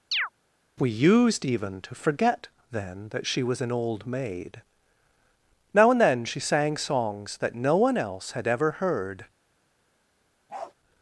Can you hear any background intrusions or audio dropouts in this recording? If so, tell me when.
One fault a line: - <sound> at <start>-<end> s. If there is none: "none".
- chirp at 0.1-0.3 s
- bark at 10.5-10.7 s